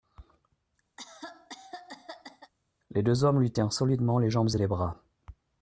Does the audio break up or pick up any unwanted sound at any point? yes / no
yes